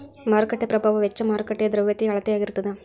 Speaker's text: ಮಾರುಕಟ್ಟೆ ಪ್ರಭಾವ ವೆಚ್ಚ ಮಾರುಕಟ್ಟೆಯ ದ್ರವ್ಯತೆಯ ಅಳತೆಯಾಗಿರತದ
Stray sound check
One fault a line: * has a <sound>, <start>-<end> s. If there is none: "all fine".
all fine